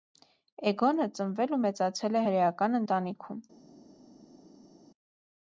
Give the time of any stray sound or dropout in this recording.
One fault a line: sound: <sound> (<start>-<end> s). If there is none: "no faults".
no faults